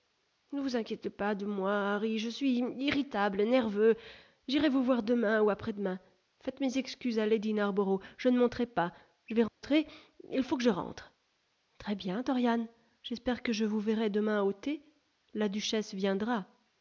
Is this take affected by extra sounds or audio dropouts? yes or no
yes